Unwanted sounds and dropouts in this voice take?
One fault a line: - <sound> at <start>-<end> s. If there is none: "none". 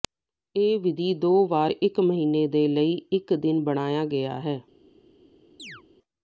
- chirp at 5.6-5.8 s